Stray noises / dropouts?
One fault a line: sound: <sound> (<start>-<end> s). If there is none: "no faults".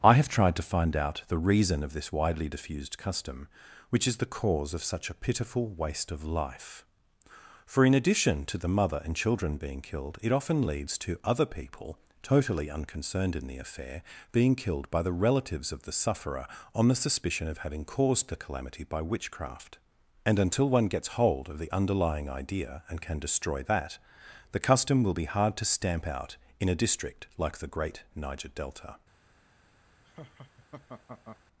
sound: laugh (30.0-31.4 s)